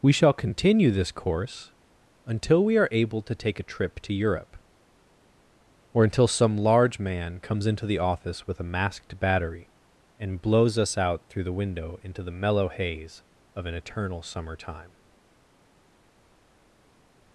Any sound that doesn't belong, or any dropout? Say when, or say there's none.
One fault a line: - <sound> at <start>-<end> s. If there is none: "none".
none